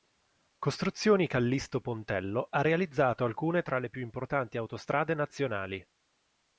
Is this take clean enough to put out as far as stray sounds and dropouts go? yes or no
yes